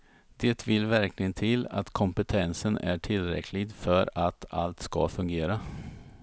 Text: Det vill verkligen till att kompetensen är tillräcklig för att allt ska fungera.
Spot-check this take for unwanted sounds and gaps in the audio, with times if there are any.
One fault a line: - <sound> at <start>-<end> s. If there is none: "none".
none